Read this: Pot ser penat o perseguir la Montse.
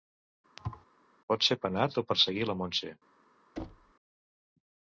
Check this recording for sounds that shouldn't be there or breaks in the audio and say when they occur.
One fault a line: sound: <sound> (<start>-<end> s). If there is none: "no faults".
sound: thud (0.6-0.8 s)
sound: thud (3.6-3.9 s)